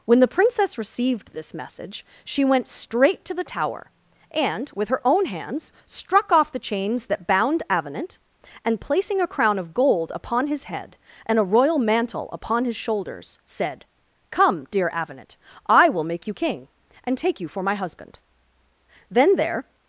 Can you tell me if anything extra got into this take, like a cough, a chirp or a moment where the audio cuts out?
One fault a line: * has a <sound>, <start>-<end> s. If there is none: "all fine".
all fine